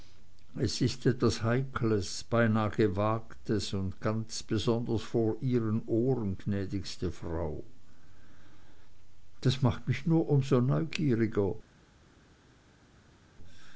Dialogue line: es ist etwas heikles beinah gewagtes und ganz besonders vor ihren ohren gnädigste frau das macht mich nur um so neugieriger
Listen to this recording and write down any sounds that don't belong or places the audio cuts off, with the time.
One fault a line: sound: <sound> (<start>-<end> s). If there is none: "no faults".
no faults